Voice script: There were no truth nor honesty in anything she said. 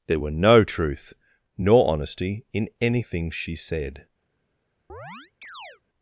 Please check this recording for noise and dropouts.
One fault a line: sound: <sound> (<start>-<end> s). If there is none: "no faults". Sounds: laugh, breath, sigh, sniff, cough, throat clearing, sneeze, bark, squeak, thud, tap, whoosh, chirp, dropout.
sound: chirp (4.9-5.8 s)